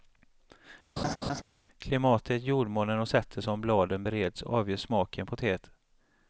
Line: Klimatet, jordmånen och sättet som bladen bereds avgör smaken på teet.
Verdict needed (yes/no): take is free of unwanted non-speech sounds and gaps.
no